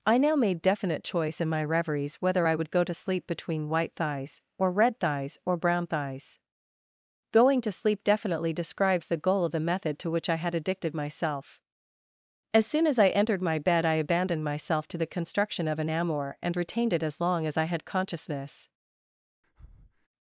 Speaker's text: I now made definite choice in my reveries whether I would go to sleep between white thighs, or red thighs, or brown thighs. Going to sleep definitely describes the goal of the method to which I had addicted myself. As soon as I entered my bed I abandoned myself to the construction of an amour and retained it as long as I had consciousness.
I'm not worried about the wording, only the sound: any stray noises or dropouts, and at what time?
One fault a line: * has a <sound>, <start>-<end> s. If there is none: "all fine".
* has a breath, 19.4-20.1 s